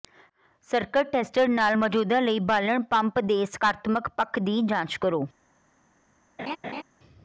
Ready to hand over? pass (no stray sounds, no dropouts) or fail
fail